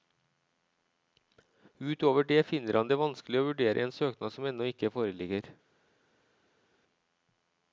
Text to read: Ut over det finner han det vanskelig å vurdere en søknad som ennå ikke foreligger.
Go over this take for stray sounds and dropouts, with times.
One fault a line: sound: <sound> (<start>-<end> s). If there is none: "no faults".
no faults